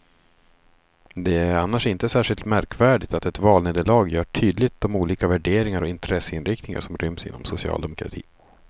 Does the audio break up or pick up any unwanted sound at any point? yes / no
no